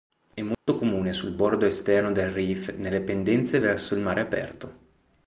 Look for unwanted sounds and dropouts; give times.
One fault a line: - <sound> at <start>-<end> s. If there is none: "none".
- dropout at 0.5-0.7 s